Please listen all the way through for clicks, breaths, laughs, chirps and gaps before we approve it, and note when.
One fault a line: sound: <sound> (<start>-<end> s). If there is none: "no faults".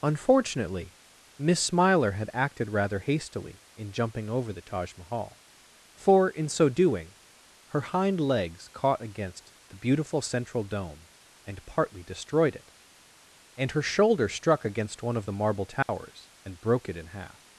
sound: dropout (15.8-15.9 s)